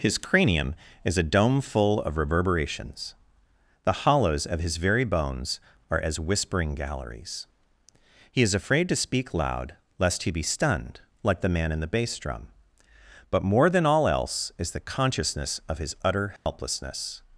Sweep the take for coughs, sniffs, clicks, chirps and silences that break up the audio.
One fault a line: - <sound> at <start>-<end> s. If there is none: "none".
- dropout at 16.4-16.5 s